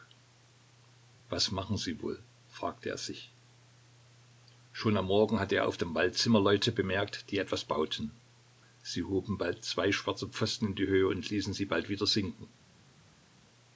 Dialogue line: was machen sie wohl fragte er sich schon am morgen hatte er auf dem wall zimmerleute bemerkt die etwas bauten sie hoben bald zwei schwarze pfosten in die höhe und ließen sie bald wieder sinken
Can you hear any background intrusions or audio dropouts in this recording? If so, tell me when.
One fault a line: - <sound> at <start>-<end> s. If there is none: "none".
none